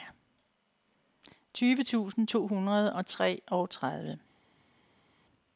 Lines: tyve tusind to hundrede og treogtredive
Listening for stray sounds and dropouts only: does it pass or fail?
pass